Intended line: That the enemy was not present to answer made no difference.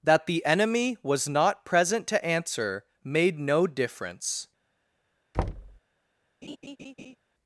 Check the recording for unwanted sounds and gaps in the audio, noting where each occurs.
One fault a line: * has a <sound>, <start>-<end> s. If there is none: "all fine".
* has a thud, 5.3-5.8 s
* has a laugh, 6.4-7.2 s